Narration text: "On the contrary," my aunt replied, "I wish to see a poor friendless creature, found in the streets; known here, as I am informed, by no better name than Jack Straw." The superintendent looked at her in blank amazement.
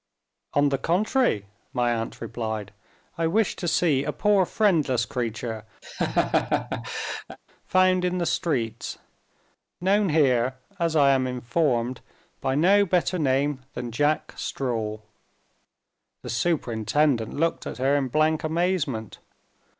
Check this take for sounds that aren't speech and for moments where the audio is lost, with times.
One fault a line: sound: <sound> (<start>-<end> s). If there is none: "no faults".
sound: laugh (5.8-7.4 s)